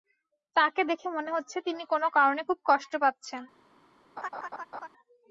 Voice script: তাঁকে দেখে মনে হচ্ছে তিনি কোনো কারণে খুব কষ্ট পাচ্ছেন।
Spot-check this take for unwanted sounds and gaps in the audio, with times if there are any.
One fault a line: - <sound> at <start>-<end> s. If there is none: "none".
- laugh at 4.2-4.9 s